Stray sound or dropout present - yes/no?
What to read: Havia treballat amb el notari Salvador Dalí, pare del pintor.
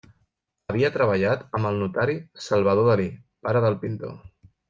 no